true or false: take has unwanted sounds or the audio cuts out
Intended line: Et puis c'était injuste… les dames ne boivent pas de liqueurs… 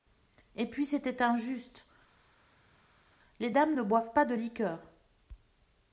false